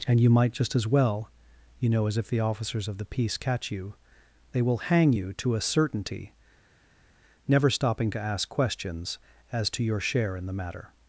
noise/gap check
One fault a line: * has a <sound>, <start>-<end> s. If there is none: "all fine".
all fine